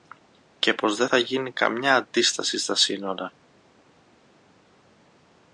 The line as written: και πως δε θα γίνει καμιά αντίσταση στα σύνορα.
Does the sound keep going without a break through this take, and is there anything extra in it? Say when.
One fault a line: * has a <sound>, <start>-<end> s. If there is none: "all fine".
all fine